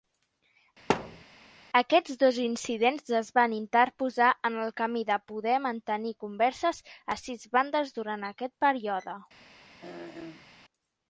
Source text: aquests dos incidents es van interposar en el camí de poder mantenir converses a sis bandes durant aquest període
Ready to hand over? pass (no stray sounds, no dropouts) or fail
fail